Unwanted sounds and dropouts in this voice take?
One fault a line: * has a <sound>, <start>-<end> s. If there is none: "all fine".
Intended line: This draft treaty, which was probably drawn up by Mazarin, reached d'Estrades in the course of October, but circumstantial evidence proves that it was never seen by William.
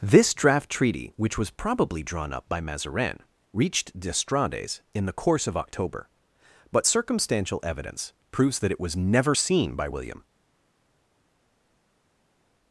all fine